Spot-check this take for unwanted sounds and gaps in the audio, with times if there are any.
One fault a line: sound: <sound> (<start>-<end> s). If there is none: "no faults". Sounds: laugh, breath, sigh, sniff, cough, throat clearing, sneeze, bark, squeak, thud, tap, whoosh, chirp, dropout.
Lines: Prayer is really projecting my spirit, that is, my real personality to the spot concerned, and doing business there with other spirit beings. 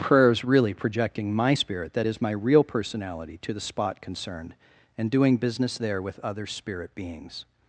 no faults